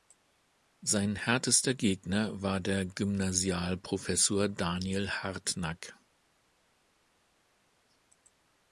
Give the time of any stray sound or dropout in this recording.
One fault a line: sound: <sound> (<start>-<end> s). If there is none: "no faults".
no faults